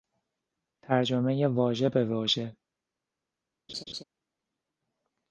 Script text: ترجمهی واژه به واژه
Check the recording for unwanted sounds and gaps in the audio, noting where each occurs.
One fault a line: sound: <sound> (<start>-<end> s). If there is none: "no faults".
sound: laugh (3.7-4.0 s)